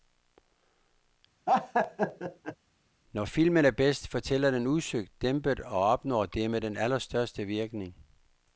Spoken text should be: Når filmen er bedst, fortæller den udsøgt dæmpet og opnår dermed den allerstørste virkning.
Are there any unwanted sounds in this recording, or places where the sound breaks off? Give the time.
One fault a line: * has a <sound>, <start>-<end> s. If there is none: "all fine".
* has a laugh, 1.5-2.6 s